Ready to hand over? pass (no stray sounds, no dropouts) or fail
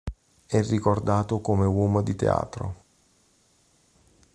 pass